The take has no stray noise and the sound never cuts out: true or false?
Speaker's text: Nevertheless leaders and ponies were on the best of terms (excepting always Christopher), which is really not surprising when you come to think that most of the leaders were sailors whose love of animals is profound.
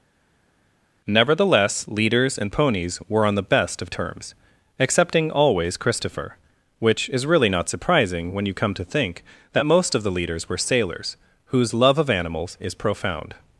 true